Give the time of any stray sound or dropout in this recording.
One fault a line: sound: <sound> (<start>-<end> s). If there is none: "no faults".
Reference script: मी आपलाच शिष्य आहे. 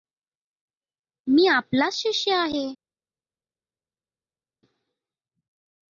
no faults